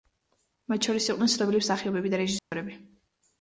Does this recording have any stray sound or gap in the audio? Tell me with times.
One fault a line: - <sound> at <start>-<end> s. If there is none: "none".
- dropout at 2.4-2.5 s